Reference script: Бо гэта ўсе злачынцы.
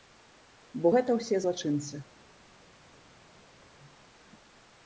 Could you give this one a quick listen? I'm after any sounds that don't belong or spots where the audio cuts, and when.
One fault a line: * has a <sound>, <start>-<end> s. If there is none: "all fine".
all fine